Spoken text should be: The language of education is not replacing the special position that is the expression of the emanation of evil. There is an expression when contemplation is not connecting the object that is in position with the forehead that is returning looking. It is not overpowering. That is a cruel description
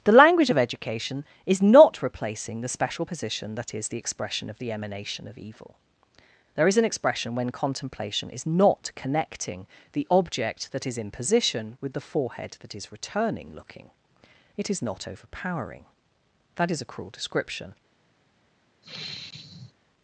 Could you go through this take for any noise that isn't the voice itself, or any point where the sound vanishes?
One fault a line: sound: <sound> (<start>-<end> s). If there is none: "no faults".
sound: sigh (18.8-19.7 s)